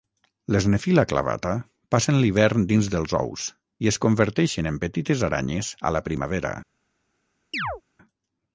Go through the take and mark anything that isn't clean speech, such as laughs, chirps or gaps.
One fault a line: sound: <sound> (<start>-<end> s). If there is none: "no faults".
sound: chirp (7.5-7.8 s)